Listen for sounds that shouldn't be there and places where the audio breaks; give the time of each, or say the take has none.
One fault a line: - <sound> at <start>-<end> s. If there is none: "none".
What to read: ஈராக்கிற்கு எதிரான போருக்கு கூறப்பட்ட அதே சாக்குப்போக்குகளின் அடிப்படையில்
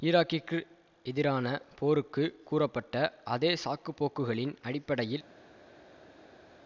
none